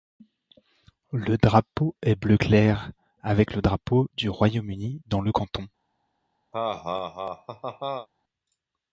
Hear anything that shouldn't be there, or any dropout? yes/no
yes